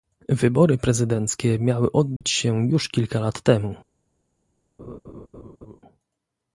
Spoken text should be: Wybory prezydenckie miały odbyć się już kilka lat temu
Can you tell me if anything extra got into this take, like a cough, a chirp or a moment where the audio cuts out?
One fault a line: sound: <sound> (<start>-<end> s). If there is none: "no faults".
sound: dropout (2.2-2.2 s)
sound: laugh (4.8-5.8 s)